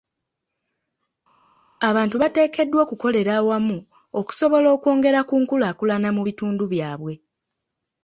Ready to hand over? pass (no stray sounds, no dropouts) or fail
pass